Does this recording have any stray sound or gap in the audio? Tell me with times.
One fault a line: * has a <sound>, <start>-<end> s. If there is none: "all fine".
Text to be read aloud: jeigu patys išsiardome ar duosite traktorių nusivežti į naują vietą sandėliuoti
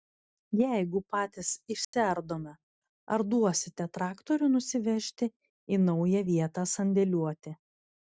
* has a dropout, 1.8-1.9 s